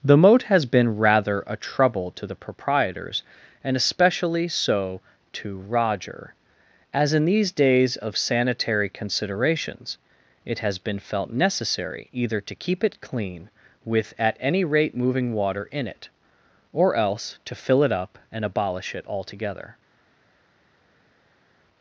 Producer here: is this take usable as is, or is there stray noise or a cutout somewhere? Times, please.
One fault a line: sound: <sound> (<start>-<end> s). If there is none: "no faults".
no faults